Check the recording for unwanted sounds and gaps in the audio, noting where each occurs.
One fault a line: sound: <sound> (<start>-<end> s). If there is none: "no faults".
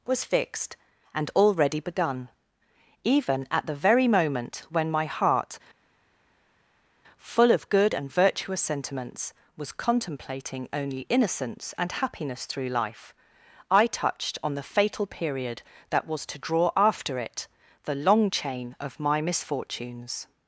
no faults